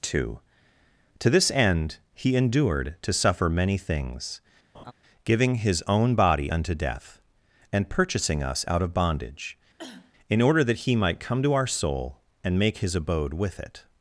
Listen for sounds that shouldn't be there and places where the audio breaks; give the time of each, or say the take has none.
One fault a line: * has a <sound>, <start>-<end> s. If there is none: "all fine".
* has a laugh, 4.7-4.9 s
* has a cough, 9.8-10.1 s